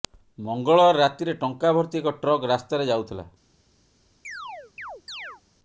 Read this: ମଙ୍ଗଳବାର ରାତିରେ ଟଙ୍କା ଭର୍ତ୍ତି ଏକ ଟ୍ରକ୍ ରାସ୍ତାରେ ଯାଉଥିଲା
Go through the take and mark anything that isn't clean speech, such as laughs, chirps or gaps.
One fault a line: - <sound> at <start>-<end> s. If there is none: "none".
- chirp at 4.2-5.4 s